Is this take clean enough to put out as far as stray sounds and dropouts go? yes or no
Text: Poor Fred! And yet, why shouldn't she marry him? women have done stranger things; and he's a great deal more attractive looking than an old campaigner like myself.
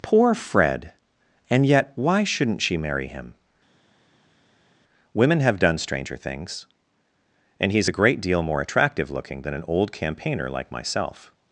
yes